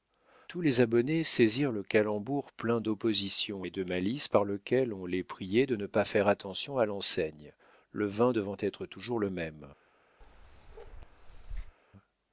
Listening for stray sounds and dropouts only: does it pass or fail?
fail